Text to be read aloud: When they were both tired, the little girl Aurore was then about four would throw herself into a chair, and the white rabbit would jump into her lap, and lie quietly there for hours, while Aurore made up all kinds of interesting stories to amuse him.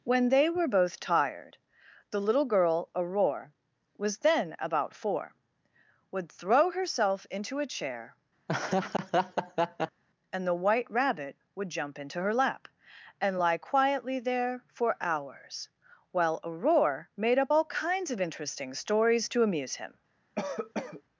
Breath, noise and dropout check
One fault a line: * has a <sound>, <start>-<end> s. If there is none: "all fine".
* has a laugh, 8.5-10.0 s
* has a cough, 20.4-21.0 s